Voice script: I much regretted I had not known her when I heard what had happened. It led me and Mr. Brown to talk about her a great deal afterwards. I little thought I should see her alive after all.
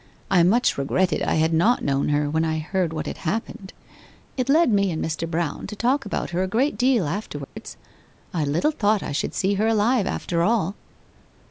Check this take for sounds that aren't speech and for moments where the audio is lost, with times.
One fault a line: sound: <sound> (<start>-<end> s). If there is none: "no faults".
sound: dropout (7.4-7.6 s)